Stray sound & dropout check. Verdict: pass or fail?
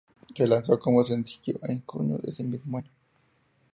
pass